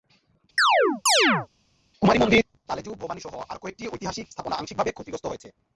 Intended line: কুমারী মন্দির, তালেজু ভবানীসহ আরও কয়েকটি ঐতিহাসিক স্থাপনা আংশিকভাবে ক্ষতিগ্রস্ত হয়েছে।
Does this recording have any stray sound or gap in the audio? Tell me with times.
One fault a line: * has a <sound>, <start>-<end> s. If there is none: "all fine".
* has a chirp, 0.6-1.5 s